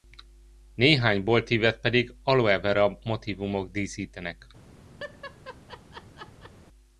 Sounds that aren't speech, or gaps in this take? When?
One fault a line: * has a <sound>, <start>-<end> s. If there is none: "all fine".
* has a laugh, 5.0-6.5 s